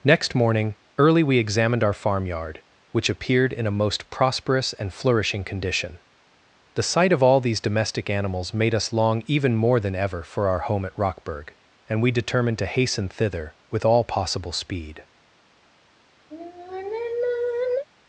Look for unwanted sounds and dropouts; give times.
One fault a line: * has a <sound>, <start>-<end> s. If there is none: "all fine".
* has a sigh, 16.3-17.9 s